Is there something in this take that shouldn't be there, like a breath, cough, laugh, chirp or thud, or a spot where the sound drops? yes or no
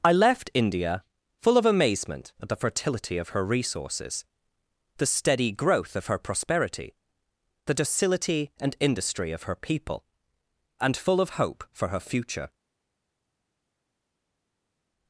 no